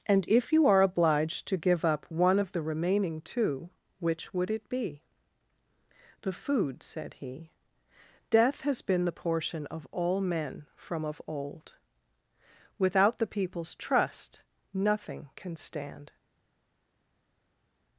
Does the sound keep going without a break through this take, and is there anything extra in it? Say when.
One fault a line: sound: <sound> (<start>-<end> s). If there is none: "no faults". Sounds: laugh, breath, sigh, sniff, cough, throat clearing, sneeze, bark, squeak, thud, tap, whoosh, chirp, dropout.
no faults